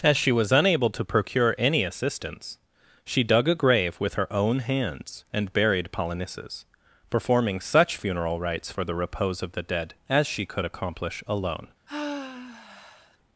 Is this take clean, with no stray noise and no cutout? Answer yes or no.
no